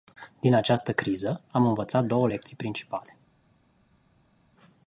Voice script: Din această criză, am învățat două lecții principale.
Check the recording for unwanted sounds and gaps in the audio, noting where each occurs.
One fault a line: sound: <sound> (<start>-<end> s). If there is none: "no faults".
no faults